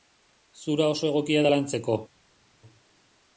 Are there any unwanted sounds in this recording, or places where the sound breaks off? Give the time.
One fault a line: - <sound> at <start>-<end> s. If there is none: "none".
none